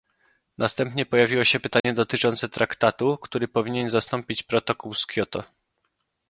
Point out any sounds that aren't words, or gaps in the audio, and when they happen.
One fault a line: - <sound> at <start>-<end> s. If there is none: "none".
- dropout at 1.8-1.8 s